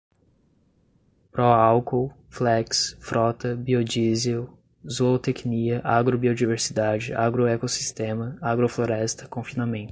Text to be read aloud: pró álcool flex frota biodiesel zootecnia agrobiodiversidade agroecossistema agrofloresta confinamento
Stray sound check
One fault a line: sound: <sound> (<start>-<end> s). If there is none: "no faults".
no faults